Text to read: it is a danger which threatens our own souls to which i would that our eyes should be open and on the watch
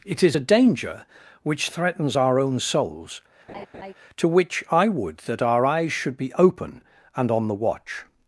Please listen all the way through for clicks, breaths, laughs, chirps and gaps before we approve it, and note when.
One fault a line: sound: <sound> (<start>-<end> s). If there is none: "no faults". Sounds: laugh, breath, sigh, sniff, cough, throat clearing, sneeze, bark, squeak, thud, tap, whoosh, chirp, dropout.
sound: laugh (3.5-3.9 s)